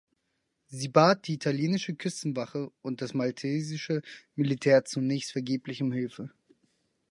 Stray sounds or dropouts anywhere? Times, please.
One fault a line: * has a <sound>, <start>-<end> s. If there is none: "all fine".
all fine